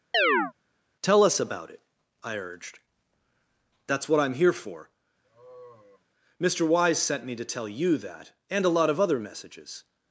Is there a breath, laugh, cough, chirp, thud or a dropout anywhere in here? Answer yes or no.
yes